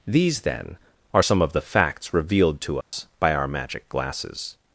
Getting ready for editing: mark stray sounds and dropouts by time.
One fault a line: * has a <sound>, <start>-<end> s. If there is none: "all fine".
* has a dropout, 2.8-2.9 s